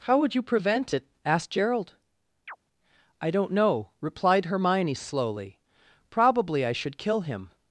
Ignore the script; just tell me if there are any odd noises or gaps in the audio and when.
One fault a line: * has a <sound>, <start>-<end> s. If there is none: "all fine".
* has a chirp, 2.5-2.6 s